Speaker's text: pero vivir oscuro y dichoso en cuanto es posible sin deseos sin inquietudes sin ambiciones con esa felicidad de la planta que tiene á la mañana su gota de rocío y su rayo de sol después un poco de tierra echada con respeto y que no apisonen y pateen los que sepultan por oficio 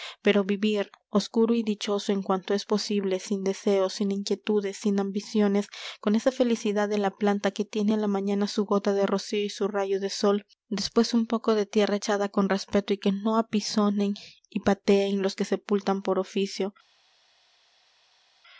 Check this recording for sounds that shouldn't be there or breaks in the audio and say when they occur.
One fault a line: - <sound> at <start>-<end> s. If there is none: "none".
none